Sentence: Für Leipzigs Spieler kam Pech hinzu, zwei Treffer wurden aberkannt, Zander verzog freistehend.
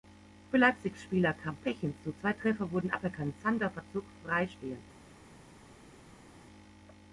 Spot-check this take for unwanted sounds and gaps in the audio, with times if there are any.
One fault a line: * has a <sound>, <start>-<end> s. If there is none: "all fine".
all fine